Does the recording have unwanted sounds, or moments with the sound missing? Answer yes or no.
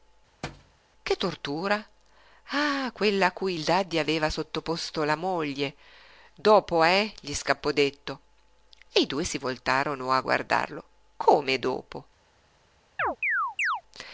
yes